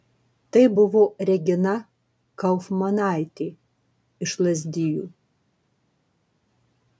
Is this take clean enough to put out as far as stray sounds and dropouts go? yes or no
yes